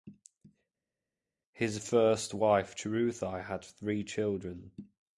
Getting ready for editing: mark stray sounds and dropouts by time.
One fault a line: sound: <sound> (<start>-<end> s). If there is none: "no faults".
no faults